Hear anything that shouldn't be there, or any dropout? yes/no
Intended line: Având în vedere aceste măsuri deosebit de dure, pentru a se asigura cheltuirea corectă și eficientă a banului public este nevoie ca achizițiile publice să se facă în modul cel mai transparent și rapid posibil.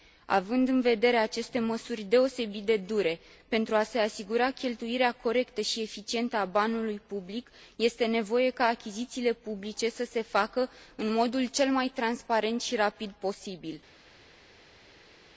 no